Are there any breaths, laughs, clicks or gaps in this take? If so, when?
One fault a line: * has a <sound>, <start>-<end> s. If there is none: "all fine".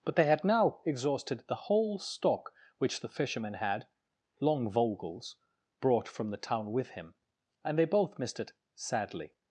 all fine